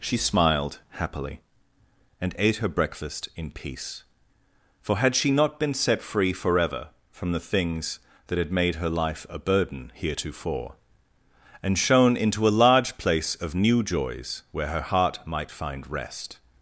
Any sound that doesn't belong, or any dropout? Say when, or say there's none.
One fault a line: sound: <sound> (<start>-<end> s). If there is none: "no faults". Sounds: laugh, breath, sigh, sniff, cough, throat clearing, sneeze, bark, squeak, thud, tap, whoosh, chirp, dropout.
no faults